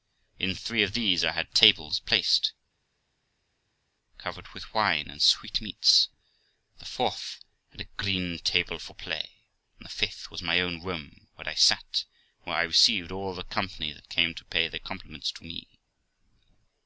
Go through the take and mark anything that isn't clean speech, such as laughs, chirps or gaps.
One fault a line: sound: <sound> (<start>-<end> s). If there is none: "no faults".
no faults